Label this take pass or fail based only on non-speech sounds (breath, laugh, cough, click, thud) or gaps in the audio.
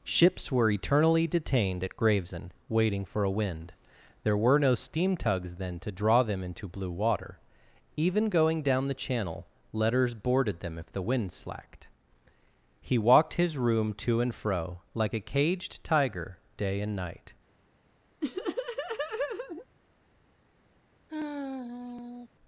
fail